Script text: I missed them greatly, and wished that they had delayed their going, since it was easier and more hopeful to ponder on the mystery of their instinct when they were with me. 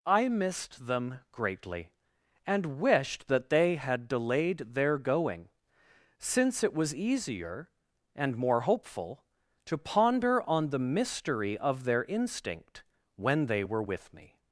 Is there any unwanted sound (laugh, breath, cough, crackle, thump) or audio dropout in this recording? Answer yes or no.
no